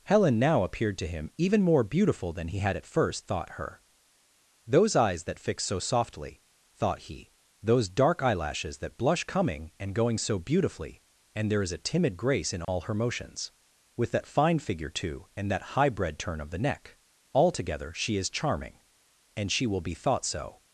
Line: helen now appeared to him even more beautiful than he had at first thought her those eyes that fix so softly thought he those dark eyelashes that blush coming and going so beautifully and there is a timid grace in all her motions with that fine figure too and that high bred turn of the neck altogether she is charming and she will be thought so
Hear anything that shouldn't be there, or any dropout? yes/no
yes